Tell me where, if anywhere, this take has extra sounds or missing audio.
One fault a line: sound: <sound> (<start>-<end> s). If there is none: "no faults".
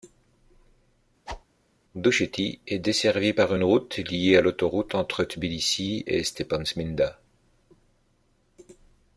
sound: whoosh (1.3-1.4 s)